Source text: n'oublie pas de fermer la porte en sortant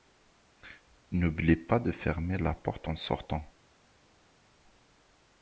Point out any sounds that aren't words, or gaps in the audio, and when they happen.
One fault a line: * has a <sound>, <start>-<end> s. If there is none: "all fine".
all fine